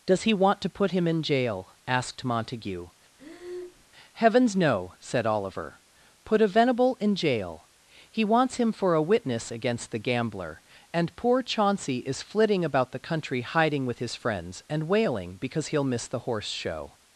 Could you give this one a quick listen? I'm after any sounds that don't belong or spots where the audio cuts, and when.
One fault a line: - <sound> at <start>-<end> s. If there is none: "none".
- breath at 3.2-3.9 s